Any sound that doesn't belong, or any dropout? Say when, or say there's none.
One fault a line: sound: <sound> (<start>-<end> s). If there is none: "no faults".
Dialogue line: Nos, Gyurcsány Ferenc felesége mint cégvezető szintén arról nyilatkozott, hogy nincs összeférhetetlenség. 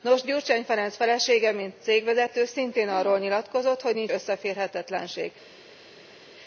no faults